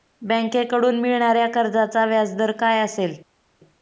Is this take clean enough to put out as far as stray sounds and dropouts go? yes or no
yes